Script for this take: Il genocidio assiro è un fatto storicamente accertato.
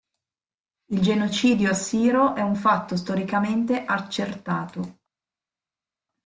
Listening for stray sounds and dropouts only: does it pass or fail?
pass